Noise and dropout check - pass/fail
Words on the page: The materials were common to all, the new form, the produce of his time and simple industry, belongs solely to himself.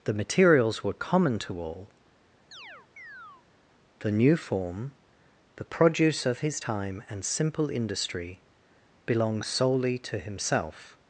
fail